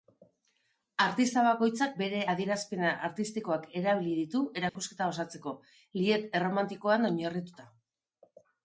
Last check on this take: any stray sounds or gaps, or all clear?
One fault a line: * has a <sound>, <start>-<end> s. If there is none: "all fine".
* has a dropout, 4.7-4.8 s